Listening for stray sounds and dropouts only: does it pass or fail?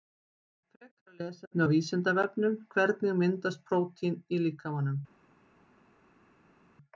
pass